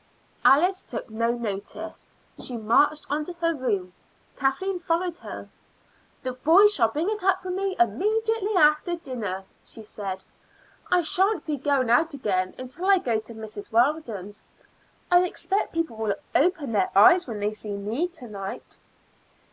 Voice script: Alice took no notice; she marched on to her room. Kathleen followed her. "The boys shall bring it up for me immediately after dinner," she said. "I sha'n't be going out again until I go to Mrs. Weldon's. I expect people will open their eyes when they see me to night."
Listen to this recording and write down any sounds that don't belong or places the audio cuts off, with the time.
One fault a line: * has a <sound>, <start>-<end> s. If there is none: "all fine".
all fine